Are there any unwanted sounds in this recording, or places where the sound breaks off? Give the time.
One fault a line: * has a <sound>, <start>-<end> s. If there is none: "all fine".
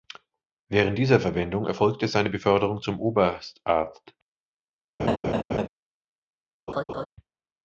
* has a laugh, 5.0-5.7 s
* has a laugh, 6.7-7.1 s